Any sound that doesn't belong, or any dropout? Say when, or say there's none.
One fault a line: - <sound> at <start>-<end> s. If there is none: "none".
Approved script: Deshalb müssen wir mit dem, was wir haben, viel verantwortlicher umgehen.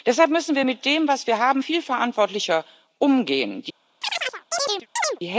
- chirp at 4.0-5.2 s